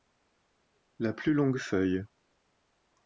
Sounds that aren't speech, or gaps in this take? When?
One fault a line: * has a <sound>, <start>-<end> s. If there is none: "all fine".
all fine